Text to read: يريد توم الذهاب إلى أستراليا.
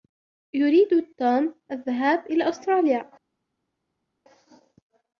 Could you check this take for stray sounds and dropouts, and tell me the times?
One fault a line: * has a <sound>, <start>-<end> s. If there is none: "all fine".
all fine